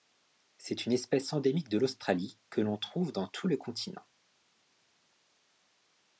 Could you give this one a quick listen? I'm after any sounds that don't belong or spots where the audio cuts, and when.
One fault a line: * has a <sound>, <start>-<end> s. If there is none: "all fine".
all fine